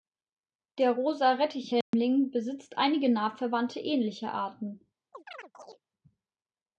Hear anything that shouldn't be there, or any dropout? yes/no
yes